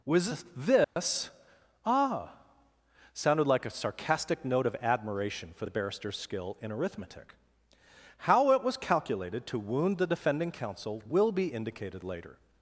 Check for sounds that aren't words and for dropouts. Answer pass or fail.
fail